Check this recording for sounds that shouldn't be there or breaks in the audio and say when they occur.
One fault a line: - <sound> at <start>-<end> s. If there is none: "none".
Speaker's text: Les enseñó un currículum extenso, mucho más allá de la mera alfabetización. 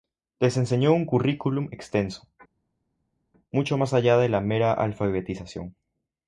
none